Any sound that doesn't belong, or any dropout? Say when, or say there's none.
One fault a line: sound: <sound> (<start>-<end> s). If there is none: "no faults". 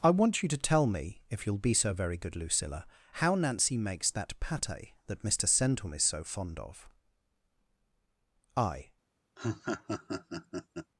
sound: laugh (9.4-10.9 s)